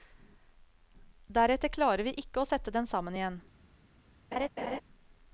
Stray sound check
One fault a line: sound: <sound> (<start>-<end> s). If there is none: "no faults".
sound: laugh (4.3-4.8 s)